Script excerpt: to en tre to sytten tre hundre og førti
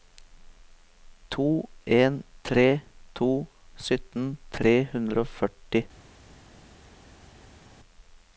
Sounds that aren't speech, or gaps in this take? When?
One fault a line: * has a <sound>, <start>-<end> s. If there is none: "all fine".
all fine